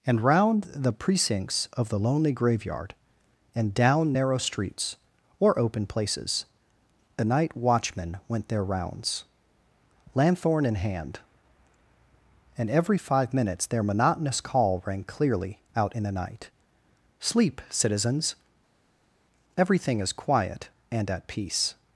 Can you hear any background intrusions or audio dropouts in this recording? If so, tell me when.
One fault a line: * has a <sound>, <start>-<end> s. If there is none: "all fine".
all fine